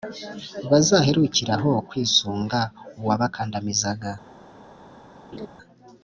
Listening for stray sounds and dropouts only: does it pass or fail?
fail